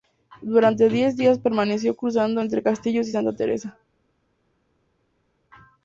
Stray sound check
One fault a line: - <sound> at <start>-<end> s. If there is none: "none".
none